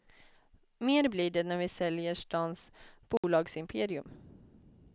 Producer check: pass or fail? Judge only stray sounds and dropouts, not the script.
fail